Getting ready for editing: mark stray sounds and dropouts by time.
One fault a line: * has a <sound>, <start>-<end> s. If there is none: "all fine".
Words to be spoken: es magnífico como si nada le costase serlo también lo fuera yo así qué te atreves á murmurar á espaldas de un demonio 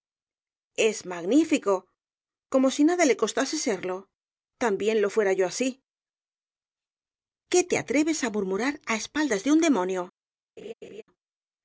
* has a laugh, 10.6-11.0 s